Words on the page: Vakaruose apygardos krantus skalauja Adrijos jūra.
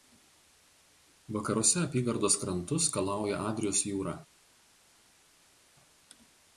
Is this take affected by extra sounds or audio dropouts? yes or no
no